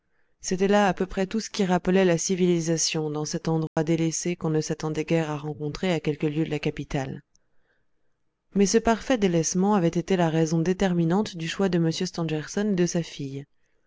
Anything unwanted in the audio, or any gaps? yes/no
yes